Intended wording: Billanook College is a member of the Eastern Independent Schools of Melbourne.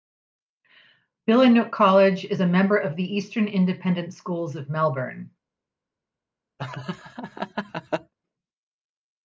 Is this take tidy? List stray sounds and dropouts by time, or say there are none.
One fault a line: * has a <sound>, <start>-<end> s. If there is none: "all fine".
* has a laugh, 6.6-8.1 s